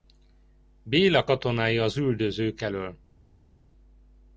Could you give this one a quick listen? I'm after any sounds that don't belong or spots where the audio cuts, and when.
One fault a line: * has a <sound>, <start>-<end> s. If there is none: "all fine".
all fine